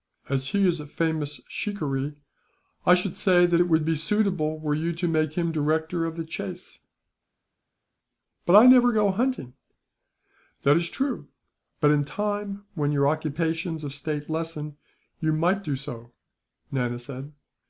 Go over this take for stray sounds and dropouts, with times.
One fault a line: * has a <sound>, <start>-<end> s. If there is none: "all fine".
all fine